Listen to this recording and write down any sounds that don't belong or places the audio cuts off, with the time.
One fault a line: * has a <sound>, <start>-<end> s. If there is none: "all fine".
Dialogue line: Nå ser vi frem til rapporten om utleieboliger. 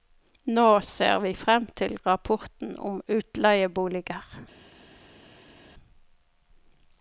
all fine